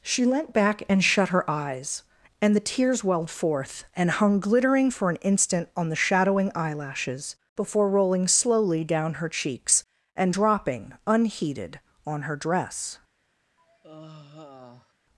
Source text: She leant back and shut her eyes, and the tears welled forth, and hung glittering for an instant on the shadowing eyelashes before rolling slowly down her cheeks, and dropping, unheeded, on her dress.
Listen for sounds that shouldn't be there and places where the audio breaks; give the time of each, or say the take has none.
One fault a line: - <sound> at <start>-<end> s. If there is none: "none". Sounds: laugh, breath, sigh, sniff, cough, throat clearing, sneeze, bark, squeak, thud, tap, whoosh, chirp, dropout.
- sigh at 13.6-14.9 s